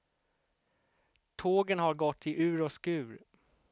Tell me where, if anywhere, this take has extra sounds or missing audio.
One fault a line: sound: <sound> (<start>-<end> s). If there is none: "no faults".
no faults